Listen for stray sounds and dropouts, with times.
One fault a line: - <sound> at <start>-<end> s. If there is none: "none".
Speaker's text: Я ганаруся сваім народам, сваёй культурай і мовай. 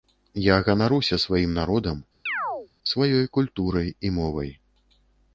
- chirp at 2.3-2.7 s